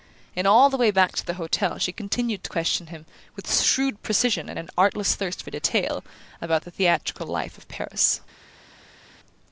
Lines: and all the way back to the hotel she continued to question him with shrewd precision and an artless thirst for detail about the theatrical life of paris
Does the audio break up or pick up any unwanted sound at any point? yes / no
no